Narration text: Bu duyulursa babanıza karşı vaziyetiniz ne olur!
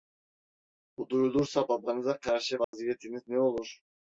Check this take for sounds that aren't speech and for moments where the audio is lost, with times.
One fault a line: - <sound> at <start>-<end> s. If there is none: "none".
- dropout at 2.6-2.7 s